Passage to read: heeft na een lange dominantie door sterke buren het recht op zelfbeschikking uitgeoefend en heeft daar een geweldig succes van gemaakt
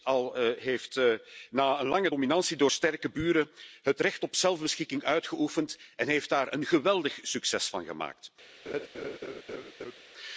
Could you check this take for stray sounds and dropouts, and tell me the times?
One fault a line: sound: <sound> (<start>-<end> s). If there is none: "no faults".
sound: laugh (8.7-10.0 s)